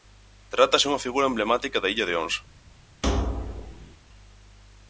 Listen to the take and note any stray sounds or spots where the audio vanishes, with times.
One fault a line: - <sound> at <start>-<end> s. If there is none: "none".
- thud at 3.0-4.0 s